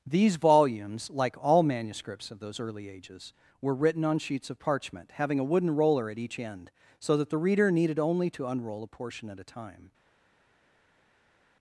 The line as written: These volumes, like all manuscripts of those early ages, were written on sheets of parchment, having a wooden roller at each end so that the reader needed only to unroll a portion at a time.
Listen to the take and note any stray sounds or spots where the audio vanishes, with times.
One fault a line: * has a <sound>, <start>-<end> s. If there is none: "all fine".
all fine